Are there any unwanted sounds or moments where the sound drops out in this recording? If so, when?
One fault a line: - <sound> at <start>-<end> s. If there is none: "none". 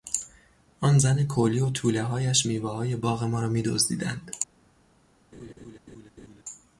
- laugh at 5.3-6.4 s